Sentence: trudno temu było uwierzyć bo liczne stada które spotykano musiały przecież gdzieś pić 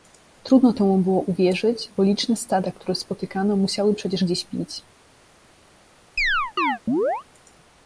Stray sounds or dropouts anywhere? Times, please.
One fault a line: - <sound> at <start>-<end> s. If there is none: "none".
- chirp at 6.2-7.2 s